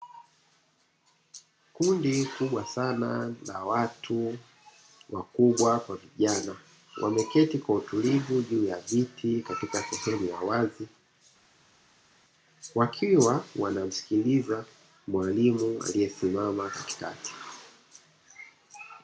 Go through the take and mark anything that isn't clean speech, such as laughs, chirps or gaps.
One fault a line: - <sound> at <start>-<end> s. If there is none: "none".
none